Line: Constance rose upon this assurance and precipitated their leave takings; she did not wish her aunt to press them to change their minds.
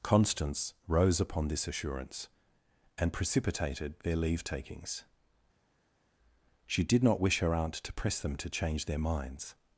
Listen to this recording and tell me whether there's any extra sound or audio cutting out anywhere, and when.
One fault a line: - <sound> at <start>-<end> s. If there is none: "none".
none